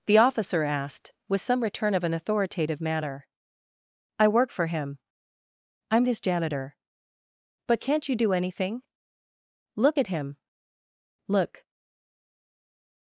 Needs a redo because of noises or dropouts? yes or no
no